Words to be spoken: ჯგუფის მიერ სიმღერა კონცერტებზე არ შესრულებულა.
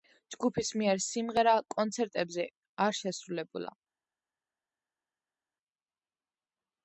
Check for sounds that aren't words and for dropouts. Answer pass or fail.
pass